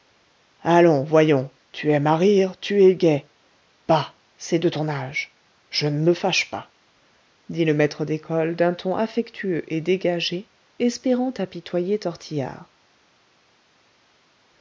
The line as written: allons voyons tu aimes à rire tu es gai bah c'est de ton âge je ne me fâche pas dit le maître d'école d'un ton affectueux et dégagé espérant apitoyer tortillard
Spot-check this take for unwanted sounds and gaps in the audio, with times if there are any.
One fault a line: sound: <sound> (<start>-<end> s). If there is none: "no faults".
no faults